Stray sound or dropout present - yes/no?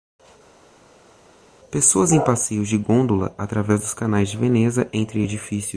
no